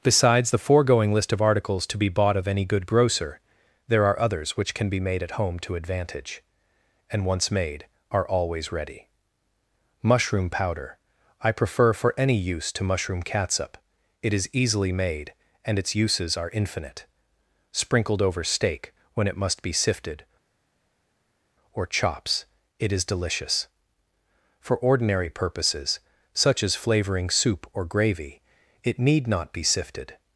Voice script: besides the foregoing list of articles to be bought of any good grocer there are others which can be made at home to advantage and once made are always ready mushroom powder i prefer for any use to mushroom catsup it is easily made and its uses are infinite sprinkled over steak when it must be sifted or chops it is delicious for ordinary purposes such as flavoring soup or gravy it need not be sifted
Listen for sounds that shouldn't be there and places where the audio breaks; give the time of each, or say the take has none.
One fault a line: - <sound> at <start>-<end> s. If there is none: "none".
none